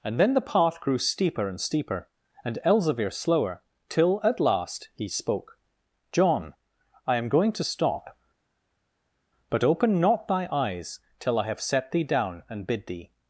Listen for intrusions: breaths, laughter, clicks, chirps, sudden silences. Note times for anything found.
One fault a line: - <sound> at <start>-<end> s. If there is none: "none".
none